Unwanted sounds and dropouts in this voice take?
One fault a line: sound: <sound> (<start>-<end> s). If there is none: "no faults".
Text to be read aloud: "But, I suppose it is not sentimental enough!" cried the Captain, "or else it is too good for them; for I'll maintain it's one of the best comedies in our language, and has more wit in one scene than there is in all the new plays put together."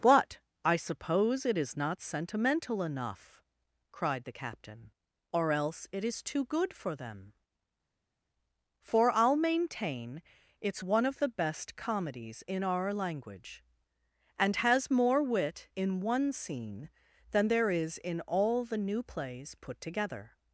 no faults